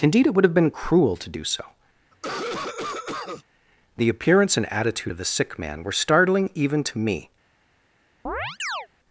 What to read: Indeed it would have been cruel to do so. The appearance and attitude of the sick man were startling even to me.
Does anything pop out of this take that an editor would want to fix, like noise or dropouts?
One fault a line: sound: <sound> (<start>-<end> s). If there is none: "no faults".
sound: cough (2.1-3.4 s)
sound: chirp (8.3-8.9 s)